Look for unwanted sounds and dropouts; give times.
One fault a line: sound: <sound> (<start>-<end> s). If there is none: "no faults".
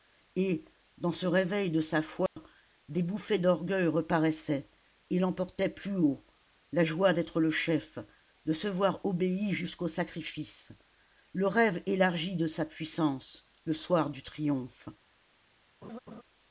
sound: dropout (2.3-2.4 s)
sound: laugh (15.8-16.2 s)